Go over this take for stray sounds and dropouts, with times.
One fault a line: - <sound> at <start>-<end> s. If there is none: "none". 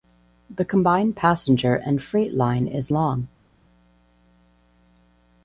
none